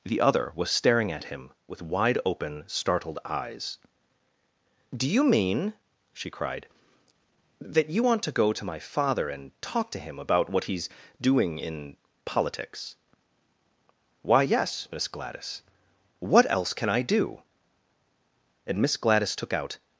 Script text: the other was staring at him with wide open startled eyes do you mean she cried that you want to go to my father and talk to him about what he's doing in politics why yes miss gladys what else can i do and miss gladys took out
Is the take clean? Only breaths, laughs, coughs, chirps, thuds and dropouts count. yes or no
yes